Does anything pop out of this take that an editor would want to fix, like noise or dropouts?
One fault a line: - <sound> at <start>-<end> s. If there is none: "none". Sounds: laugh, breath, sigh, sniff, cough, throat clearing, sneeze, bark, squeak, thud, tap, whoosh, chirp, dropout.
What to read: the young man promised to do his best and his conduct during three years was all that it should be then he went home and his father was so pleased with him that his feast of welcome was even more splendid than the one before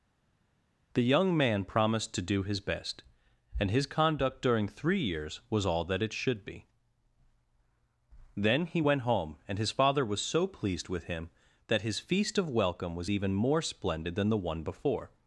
none